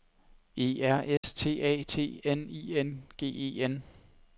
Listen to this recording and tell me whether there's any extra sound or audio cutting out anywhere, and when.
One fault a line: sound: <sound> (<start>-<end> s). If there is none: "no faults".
sound: dropout (1.2-1.2 s)